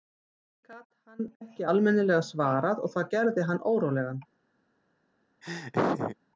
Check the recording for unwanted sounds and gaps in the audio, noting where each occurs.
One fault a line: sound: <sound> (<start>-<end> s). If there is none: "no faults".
sound: laugh (5.4-6.2 s)